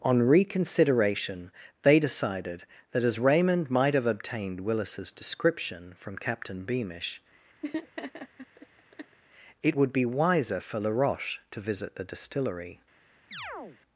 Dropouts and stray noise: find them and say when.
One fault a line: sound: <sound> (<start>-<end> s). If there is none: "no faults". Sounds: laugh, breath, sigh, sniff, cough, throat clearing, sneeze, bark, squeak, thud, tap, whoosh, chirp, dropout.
sound: laugh (7.6-9.2 s)
sound: chirp (13.3-13.8 s)